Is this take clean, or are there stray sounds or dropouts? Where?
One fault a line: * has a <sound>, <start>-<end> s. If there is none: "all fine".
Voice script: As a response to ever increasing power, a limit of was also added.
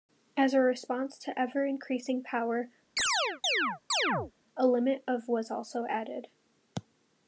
* has a chirp, 3.0-4.3 s